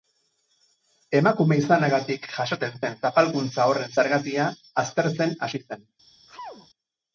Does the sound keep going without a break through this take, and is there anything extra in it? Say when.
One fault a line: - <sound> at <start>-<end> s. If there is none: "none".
- sneeze at 6.3-6.7 s